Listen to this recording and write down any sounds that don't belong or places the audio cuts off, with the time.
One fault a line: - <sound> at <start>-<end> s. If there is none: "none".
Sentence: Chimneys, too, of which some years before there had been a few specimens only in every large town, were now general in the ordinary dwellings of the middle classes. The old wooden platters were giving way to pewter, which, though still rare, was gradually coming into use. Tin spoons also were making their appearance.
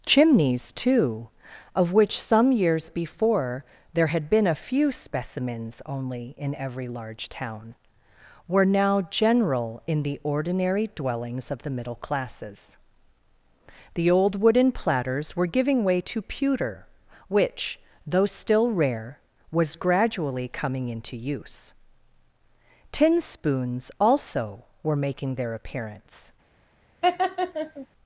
- laugh at 27.0-27.9 s